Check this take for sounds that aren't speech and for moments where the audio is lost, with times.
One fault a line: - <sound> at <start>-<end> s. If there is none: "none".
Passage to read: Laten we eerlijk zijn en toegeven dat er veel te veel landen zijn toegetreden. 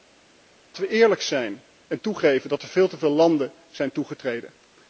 none